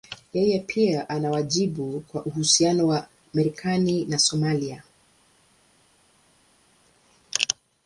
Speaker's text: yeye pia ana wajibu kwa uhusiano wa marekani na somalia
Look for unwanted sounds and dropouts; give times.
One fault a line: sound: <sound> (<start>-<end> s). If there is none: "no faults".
no faults